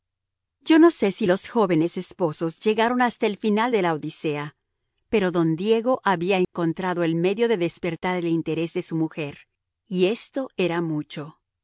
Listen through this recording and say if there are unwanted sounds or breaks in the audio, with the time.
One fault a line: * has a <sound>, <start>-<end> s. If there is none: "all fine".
* has a dropout, 6.4-6.5 s